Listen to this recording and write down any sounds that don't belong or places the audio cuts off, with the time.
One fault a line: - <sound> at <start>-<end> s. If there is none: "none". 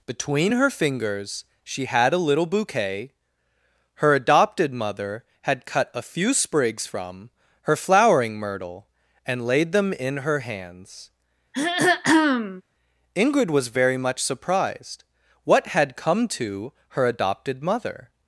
- throat clearing at 11.5-12.6 s